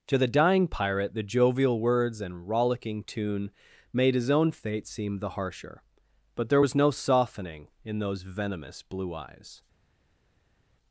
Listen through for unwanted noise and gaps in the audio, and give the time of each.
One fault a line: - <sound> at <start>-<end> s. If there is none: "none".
none